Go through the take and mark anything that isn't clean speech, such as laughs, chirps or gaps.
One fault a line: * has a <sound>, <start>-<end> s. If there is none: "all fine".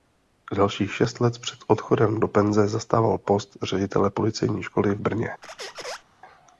* has a squeak, 5.4-6.0 s